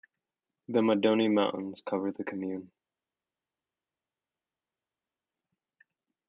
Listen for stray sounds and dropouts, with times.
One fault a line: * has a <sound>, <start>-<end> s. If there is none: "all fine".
all fine